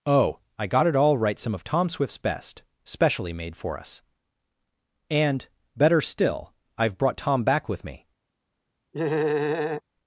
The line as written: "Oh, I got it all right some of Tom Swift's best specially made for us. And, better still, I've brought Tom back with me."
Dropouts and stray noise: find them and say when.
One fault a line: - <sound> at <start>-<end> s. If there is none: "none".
- laugh at 8.9-9.8 s